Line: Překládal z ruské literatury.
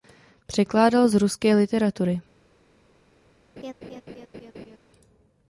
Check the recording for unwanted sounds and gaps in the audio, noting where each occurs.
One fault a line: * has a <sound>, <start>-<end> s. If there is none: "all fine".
* has a laugh, 3.6-4.8 s